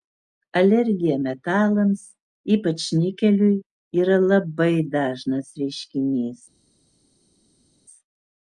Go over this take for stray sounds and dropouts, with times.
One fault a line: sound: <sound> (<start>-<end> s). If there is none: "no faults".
no faults